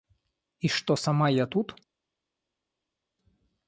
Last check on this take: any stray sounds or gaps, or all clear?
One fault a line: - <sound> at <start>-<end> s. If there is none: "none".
none